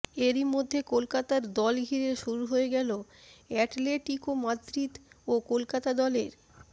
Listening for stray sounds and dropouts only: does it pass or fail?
pass